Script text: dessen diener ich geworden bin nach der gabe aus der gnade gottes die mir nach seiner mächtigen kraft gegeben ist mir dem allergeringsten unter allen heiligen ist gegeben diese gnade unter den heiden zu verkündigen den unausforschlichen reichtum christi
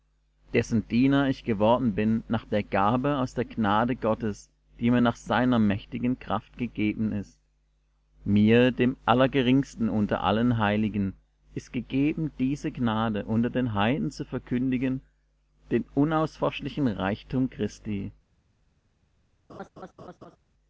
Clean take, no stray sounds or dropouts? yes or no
no